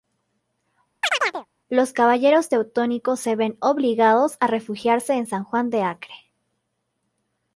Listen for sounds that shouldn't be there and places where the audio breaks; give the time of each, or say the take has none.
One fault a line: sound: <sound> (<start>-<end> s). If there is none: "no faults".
sound: chirp (1.0-1.5 s)